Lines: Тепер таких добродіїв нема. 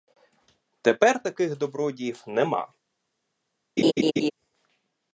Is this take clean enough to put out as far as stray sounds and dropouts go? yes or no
no